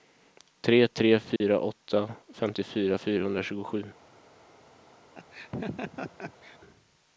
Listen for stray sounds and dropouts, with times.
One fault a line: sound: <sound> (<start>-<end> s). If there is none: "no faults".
sound: dropout (1.4-1.4 s)
sound: laugh (5.2-6.6 s)